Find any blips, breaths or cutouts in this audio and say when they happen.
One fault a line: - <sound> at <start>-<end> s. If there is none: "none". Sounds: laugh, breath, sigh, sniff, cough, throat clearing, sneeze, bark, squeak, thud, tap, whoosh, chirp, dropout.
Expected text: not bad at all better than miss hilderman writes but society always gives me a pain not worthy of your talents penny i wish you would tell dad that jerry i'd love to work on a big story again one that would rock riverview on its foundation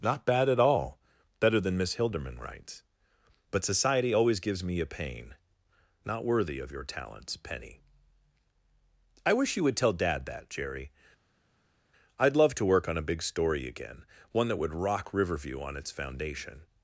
none